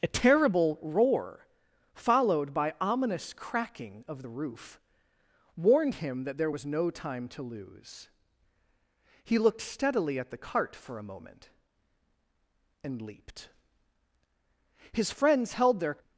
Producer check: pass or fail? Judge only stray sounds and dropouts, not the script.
pass